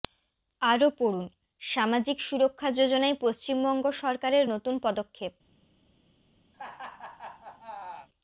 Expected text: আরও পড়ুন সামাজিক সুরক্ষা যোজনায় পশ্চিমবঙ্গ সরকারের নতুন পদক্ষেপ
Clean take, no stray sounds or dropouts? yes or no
no